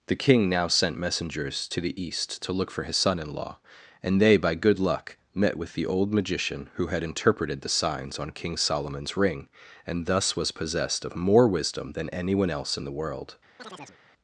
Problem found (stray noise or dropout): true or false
true